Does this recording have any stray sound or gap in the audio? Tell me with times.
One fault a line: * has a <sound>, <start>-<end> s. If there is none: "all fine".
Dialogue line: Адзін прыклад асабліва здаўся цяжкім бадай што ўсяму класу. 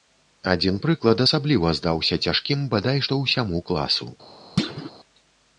* has a thud, 4.6-4.9 s